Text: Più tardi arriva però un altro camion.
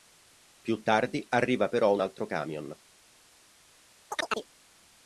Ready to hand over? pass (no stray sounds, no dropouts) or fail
fail